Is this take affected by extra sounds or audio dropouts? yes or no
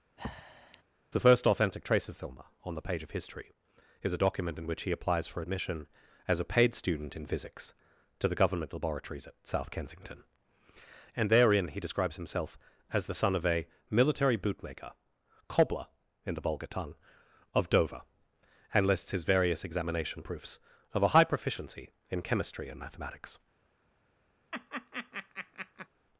yes